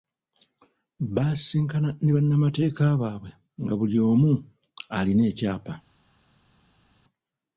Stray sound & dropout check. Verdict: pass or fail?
pass